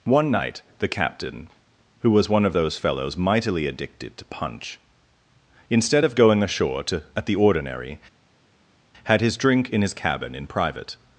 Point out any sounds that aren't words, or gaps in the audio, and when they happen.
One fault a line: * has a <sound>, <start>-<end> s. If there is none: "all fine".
all fine